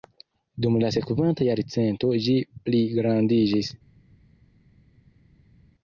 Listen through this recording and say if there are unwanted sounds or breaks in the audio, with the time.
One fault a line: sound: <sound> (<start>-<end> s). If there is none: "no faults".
no faults